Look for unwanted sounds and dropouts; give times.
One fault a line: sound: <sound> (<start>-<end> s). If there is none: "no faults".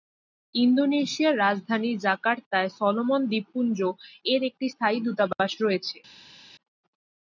no faults